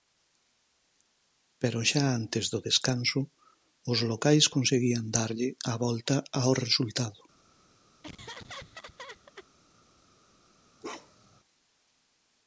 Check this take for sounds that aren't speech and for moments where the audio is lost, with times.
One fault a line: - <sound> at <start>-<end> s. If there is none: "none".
- laugh at 8.0-9.5 s
- bark at 10.8-11.4 s